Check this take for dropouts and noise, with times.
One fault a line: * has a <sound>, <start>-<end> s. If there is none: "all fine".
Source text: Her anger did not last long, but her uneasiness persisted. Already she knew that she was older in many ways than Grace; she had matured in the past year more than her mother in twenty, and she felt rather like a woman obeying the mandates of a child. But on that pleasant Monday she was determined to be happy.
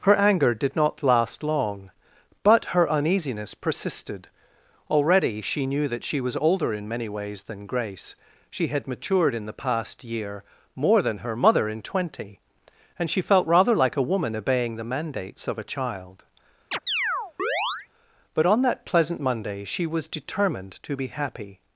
* has a chirp, 16.7-17.9 s